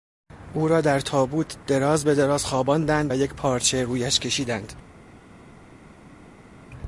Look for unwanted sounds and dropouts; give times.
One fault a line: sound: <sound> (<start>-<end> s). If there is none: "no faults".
no faults